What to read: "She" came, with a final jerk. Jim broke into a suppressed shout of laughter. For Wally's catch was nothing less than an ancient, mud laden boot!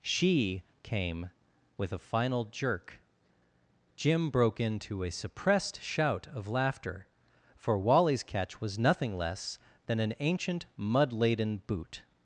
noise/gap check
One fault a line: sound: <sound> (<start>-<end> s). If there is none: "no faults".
no faults